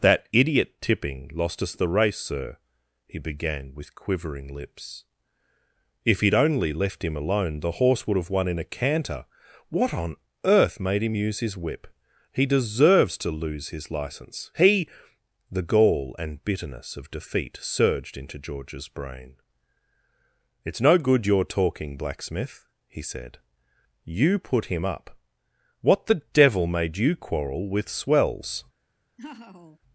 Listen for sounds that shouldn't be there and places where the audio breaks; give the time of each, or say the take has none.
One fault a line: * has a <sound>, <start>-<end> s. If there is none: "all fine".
* has a laugh, 29.2-29.8 s